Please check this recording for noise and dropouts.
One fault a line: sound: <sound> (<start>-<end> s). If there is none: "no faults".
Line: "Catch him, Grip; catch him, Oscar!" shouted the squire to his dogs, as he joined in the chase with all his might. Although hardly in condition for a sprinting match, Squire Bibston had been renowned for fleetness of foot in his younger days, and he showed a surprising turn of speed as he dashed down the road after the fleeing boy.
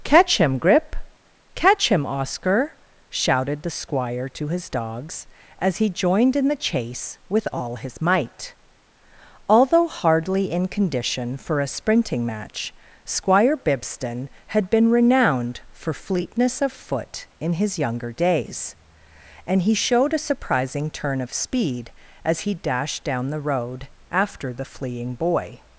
no faults